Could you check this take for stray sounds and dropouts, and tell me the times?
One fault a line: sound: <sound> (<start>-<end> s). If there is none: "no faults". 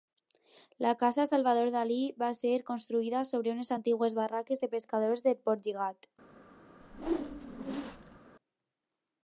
sound: whoosh (6.8-8.2 s)